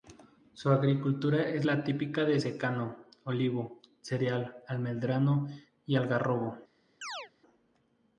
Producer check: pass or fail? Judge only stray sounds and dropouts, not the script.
fail